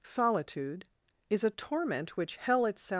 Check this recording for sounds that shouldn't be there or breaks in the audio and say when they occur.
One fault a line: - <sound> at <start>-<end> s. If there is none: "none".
none